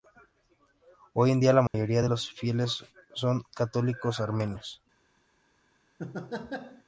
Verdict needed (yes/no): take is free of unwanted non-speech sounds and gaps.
no